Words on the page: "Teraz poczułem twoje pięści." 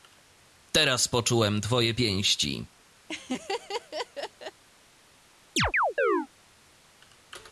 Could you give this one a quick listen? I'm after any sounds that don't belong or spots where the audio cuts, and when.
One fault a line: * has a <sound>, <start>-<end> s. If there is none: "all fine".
* has a laugh, 3.1-4.6 s
* has a chirp, 5.6-6.3 s